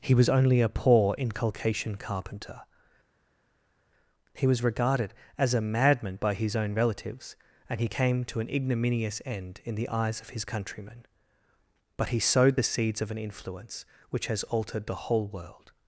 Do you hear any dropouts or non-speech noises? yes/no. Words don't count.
no